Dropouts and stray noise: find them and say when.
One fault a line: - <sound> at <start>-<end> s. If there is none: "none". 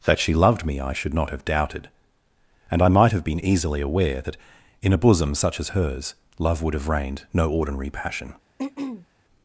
- throat clearing at 8.6-9.1 s